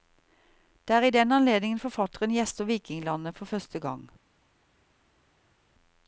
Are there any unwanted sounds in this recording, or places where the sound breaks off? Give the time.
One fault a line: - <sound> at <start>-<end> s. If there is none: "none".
none